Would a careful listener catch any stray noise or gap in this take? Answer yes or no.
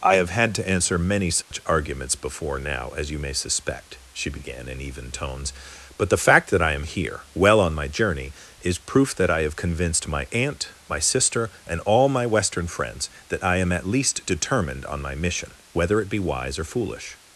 yes